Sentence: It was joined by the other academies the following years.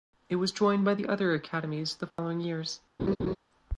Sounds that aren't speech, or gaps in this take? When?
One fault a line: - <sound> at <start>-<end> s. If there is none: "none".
- dropout at 2.1-2.2 s
- laugh at 3.0-3.4 s